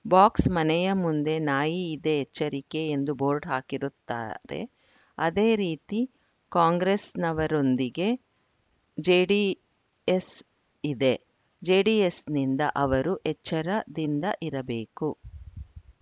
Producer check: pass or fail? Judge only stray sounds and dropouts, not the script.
pass